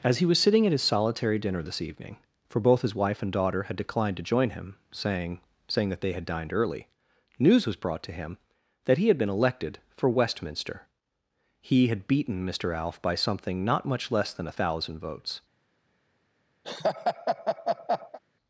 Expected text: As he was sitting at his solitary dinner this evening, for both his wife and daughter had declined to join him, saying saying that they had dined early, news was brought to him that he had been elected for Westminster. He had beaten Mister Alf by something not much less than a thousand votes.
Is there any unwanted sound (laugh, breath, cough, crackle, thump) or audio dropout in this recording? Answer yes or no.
yes